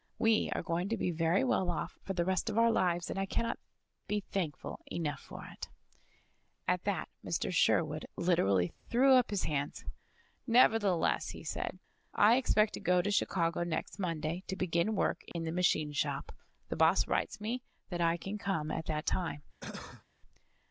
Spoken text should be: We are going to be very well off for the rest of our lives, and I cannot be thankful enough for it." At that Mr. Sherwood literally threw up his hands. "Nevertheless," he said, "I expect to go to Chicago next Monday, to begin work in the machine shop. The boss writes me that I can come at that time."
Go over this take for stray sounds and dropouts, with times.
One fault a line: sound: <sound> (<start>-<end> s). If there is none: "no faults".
sound: dropout (15.3-15.3 s)
sound: cough (19.6-20.0 s)